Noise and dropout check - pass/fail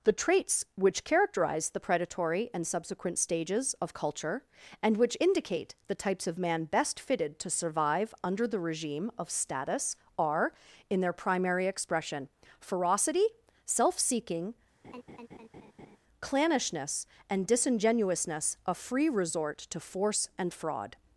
fail